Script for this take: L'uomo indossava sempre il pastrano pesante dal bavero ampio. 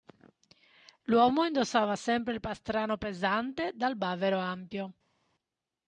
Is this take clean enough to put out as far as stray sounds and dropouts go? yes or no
yes